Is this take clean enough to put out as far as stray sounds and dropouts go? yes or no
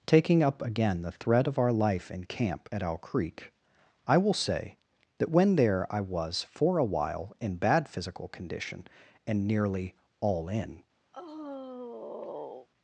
no